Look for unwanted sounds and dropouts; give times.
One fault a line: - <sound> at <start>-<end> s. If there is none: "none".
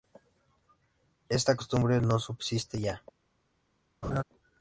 - laugh at 4.0-4.2 s